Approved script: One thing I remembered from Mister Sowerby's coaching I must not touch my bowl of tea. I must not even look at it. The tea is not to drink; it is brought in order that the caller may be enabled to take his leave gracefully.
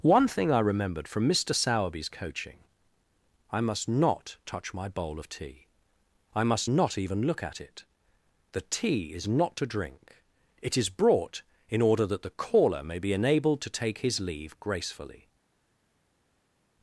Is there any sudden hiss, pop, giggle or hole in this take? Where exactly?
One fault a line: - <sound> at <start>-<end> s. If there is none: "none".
none